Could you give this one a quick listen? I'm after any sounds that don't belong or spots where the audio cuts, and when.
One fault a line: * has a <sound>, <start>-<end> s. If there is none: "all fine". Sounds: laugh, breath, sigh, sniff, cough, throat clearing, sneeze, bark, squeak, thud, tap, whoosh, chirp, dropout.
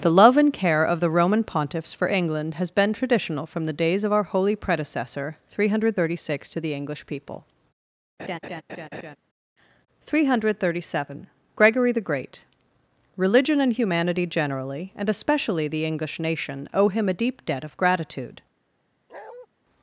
* has a laugh, 8.2-9.2 s
* has a bark, 19.1-19.5 s